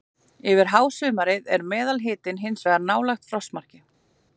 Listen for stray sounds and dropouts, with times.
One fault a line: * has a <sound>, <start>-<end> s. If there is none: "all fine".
all fine